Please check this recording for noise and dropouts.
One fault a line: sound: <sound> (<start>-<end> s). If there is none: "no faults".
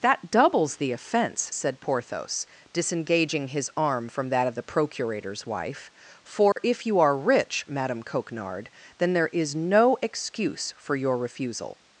sound: dropout (6.5-6.6 s)